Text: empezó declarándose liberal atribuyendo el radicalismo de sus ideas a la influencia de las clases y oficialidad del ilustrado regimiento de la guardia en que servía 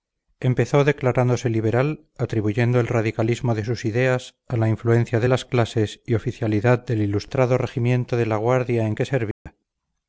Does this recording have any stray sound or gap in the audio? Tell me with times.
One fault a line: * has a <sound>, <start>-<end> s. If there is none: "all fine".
* has a dropout, 9.3-9.5 s